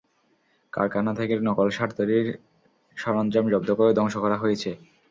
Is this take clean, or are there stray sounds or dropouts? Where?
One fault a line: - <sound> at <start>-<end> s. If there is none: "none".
none